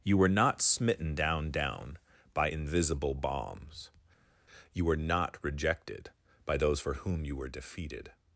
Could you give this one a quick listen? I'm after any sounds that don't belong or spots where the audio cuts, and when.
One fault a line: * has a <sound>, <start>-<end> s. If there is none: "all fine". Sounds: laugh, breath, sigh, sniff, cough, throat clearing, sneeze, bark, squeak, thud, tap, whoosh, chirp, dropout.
all fine